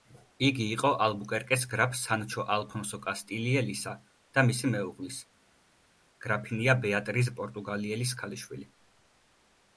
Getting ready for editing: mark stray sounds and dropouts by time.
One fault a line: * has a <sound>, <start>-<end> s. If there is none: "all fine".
all fine